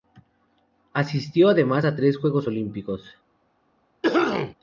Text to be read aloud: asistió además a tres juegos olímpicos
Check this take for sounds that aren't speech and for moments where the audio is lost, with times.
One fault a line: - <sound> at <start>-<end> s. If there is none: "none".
- cough at 4.0-4.5 s